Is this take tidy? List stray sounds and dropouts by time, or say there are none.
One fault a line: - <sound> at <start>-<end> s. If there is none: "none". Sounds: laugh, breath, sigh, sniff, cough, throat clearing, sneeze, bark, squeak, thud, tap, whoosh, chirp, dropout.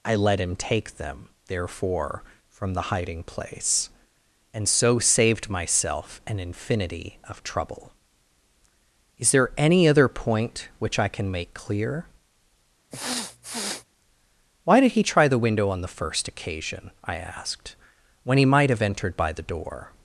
- sniff at 12.9-13.9 s